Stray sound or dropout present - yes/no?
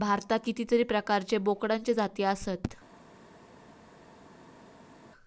no